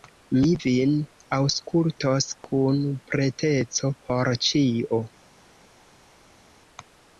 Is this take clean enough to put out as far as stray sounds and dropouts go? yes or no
yes